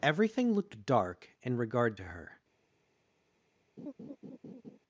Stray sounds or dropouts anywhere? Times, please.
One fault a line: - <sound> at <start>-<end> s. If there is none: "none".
- laugh at 3.8-4.8 s